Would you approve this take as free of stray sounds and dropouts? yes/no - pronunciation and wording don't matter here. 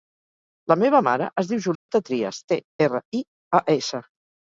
no